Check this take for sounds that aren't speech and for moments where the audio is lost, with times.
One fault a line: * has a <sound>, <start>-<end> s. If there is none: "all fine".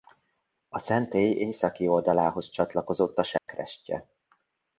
* has a dropout, 3.4-3.5 s